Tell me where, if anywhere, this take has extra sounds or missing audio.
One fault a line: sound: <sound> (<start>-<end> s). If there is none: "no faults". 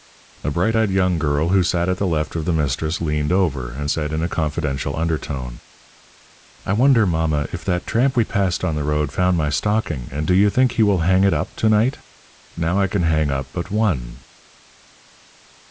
no faults